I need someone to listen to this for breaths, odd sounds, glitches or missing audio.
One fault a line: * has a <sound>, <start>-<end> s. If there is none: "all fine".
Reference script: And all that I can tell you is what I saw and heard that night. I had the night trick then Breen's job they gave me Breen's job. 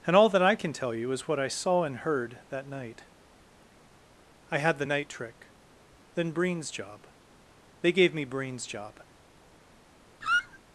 * has a squeak, 10.2-10.6 s